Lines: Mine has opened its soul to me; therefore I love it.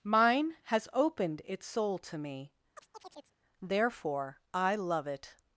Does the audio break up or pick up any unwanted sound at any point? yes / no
yes